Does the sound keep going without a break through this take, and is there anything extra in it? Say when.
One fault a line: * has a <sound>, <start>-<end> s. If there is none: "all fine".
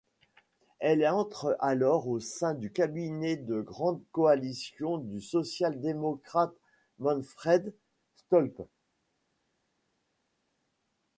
all fine